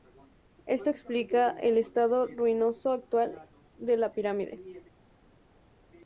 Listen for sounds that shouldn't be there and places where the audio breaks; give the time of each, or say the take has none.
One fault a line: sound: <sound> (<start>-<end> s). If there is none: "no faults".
no faults